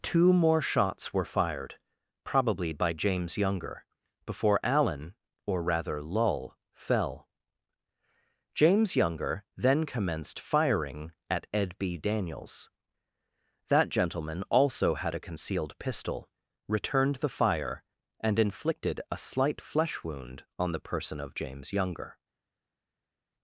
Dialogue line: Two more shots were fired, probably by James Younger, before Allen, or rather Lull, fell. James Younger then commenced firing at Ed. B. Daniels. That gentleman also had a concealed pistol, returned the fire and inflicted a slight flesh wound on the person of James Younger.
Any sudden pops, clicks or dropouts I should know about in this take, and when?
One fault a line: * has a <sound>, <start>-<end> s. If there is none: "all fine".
all fine